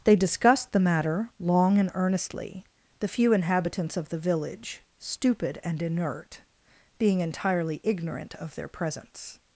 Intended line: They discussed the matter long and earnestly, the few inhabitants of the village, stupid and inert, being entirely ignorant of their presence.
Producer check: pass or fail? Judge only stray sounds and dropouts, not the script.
pass